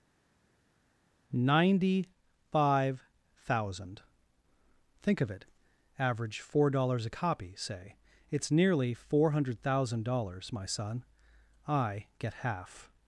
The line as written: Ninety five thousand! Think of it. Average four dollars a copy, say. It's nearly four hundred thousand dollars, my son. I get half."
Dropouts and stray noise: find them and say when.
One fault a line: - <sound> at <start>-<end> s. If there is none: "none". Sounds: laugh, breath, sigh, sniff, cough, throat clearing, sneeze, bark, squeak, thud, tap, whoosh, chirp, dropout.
none